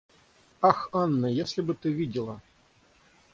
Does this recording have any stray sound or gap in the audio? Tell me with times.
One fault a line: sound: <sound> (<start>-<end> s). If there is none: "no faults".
no faults